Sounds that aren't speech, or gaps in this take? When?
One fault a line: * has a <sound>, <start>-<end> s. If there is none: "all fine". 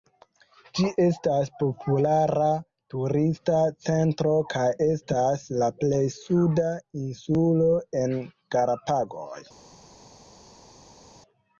all fine